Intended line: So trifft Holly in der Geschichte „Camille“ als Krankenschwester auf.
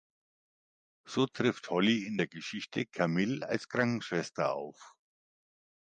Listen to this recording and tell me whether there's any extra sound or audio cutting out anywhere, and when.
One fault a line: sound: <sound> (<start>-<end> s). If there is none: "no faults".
no faults